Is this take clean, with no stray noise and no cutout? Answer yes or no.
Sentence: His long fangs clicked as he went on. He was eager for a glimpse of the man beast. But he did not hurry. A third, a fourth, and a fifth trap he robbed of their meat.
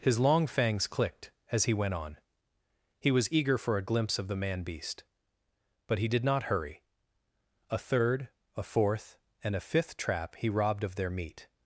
yes